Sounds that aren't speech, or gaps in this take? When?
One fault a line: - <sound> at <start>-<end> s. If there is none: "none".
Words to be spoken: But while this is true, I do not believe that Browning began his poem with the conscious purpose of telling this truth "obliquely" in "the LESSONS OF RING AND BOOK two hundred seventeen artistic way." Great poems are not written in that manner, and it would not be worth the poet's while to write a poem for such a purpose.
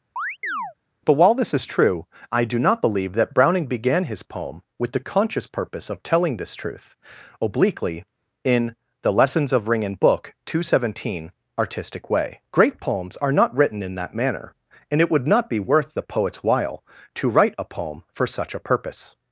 - chirp at 0.2-0.7 s